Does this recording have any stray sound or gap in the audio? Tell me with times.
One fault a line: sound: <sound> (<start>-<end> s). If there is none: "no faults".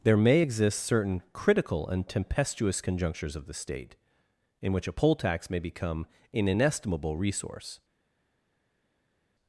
no faults